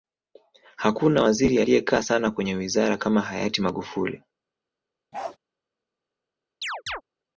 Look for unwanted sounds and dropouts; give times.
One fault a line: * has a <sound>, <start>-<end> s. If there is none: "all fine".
* has a bark, 5.1-5.4 s
* has a chirp, 6.6-7.0 s